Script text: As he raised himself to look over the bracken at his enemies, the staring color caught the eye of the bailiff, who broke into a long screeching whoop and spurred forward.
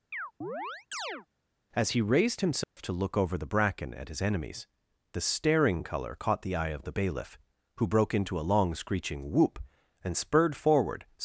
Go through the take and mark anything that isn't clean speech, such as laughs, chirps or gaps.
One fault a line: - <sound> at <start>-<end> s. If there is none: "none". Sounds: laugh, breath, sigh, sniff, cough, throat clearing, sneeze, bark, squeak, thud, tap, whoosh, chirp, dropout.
- chirp at 0.1-1.3 s
- dropout at 2.6-2.8 s